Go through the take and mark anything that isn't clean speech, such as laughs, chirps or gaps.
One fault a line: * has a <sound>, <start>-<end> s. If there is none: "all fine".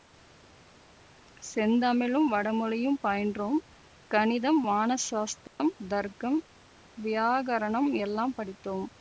* has a dropout, 5.5-5.6 s